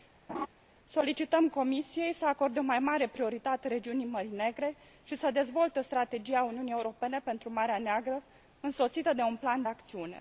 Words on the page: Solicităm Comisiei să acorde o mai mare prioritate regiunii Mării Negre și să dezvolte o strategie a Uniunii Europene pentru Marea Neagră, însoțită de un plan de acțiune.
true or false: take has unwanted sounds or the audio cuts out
true